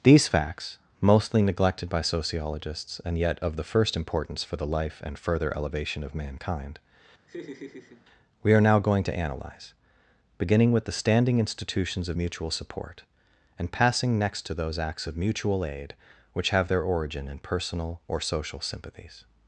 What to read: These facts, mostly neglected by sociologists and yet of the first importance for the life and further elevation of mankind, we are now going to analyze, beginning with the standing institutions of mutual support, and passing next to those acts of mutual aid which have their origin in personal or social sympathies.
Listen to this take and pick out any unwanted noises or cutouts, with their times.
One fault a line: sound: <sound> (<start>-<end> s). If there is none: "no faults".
sound: laugh (7.3-8.1 s)